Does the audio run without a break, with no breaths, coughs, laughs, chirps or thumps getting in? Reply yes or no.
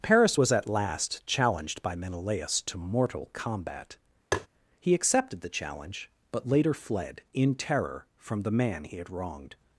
no